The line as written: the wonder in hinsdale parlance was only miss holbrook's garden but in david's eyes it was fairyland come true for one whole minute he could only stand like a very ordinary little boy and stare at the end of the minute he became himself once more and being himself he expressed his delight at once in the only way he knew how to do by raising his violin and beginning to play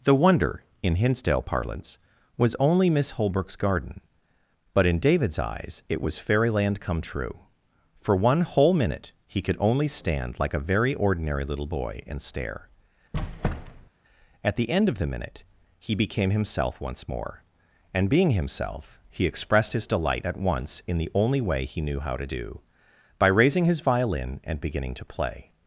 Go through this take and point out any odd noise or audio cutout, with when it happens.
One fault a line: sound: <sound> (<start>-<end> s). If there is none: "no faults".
sound: squeak (13.1-13.9 s)